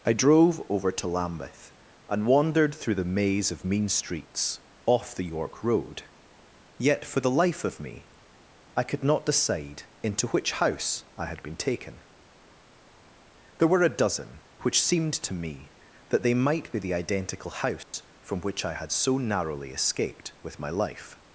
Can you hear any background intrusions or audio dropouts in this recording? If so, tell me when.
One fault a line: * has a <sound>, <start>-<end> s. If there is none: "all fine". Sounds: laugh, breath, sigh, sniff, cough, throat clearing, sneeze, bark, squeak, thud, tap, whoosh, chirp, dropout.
* has a dropout, 17.8-17.9 s